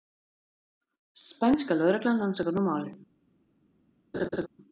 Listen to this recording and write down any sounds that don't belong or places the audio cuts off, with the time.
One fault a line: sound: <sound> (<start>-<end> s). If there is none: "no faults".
sound: laugh (4.1-4.5 s)